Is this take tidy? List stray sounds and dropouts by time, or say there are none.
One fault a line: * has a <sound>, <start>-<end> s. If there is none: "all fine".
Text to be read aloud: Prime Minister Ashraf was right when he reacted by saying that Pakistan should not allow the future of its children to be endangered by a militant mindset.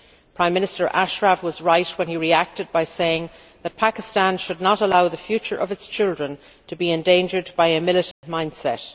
* has a dropout, 8.1-8.2 s